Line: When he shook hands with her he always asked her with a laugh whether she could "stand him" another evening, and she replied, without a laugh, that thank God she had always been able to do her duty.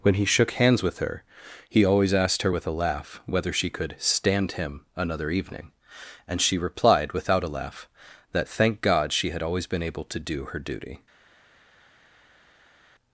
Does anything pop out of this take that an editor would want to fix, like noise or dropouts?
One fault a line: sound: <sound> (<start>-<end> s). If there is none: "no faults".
no faults